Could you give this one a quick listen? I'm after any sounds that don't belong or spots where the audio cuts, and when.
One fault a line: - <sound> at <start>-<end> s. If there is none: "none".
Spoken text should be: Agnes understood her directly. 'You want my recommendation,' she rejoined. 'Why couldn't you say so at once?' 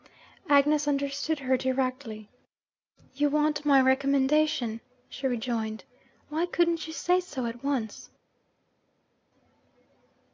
none